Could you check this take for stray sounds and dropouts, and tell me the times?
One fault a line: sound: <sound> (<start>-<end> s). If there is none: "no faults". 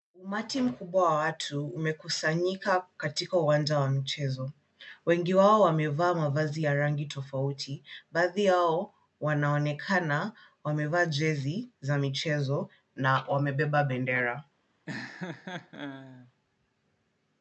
sound: laugh (14.9-16.3 s)